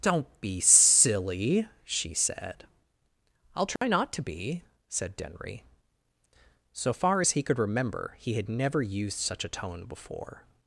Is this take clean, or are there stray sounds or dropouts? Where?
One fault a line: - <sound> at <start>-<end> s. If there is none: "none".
- dropout at 3.8-3.8 s